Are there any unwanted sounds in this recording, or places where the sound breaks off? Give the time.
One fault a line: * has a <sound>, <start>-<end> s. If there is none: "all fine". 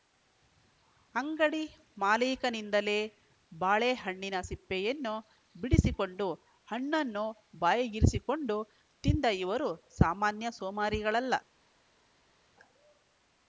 all fine